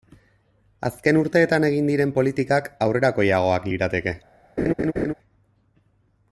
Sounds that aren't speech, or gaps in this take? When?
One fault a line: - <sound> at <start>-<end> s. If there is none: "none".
- laugh at 4.6-5.1 s